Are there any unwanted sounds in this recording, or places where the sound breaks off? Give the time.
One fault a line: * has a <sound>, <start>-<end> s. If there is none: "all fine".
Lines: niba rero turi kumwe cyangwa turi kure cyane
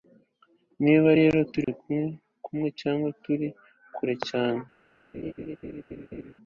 * has a dropout, 1.6-1.7 s
* has a laugh, 5.1-6.3 s